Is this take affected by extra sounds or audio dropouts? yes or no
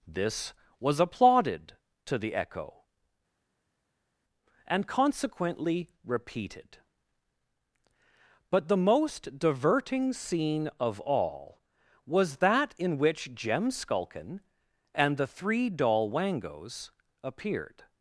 no